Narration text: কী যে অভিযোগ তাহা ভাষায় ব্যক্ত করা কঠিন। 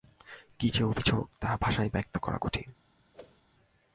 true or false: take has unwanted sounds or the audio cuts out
true